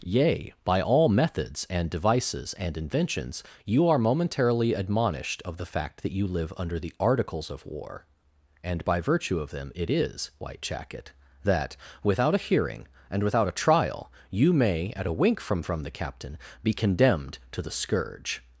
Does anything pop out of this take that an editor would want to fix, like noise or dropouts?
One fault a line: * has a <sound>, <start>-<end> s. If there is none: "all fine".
all fine